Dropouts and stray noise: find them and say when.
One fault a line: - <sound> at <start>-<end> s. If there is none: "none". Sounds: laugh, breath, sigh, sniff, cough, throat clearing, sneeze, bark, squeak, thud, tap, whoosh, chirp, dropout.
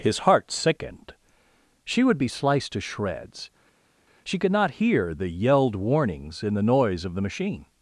none